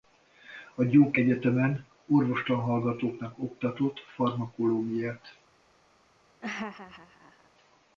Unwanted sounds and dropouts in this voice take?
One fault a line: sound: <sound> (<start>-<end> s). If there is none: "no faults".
sound: laugh (6.4-7.5 s)